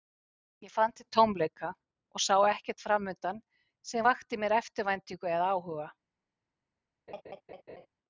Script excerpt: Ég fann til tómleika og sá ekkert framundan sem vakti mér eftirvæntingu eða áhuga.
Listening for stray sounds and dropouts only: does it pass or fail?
fail